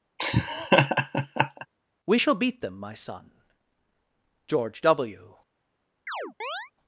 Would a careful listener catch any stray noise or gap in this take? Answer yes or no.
yes